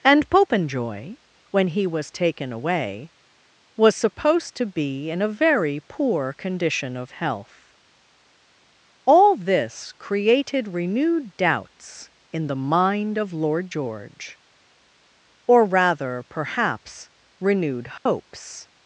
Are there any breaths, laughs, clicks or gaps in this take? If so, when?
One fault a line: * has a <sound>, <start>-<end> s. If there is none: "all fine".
* has a dropout, 18.0-18.1 s